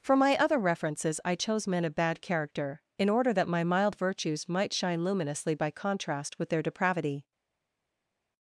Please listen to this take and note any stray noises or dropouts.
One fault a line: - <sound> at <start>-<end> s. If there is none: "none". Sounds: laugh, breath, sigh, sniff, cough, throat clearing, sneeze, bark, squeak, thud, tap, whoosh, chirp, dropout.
none